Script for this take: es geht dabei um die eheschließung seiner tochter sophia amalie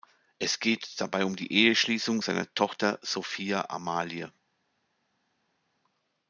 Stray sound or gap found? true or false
false